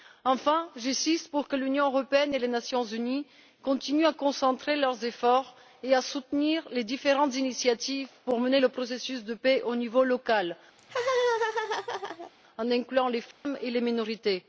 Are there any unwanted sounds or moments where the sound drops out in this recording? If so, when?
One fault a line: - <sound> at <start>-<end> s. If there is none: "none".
- laugh at 10.8-12.3 s
- dropout at 13.3-13.5 s